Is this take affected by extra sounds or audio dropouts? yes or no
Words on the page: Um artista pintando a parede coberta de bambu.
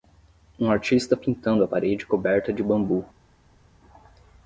no